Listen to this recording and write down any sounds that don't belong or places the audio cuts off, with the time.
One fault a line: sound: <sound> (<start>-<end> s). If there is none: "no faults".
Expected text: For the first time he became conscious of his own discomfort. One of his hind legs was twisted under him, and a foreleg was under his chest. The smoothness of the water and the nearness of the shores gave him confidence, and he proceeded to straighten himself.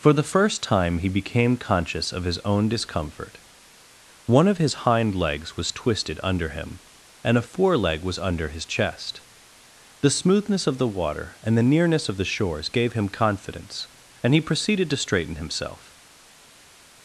no faults